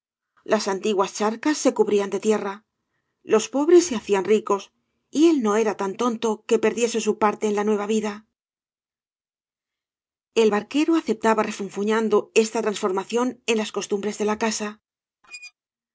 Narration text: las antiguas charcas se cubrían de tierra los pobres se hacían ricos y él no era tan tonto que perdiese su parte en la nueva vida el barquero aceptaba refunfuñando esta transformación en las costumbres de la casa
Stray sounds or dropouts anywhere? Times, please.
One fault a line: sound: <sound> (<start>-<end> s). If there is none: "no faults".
sound: squeak (15.2-15.5 s)